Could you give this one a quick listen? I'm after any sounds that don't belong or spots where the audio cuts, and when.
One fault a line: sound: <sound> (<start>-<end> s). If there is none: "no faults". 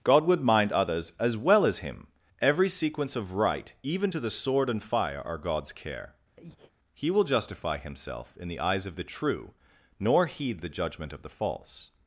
sound: breath (6.4-6.7 s)